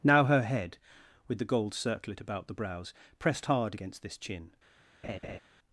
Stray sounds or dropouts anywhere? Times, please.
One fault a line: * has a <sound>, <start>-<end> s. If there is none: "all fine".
* has a laugh, 5.0-5.4 s